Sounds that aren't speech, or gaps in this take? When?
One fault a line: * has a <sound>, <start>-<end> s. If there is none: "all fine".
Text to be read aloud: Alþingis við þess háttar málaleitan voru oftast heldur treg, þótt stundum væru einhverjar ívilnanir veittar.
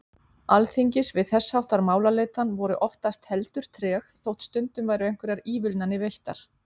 all fine